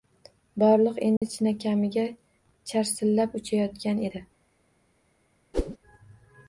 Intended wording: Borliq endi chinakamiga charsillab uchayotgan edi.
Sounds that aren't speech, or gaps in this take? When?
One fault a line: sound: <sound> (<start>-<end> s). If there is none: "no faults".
sound: dropout (1.2-1.2 s)
sound: whoosh (5.5-5.8 s)